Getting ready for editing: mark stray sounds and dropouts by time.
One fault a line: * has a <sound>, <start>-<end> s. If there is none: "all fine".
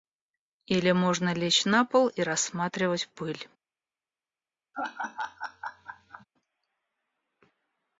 * has a laugh, 4.7-6.3 s